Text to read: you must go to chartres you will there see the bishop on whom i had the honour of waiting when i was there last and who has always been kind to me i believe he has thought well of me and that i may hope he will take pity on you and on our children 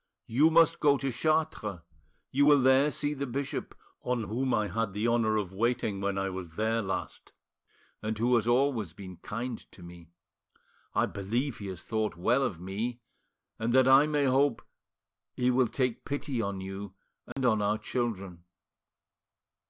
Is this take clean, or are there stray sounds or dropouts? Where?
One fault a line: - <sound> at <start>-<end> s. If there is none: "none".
- dropout at 17.3-17.4 s